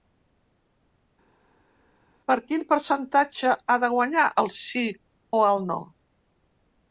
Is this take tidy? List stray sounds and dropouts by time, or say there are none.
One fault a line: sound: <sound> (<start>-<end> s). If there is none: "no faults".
no faults